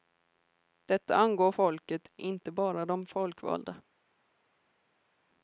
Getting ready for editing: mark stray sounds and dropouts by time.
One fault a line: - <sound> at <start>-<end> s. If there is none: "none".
none